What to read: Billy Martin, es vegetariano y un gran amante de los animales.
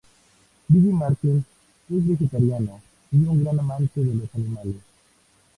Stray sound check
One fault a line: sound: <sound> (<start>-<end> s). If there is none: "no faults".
no faults